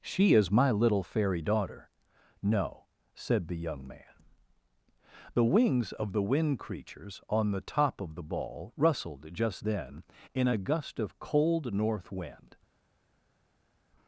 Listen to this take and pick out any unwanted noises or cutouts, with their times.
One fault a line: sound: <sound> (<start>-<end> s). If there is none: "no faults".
no faults